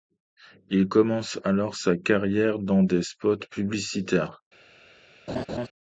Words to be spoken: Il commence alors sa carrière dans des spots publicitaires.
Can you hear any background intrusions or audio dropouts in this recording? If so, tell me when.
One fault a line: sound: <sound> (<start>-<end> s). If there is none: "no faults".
sound: laugh (5.3-5.7 s)